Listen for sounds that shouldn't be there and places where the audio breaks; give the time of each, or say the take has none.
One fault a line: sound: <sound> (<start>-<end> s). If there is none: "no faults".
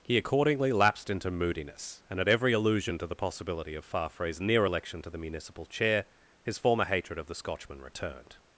no faults